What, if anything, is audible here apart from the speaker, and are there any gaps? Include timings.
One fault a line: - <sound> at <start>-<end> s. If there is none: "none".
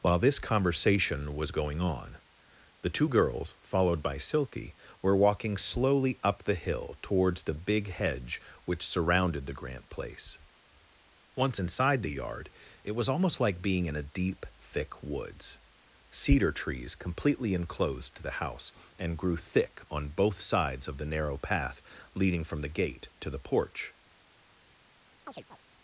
- chirp at 25.3-25.6 s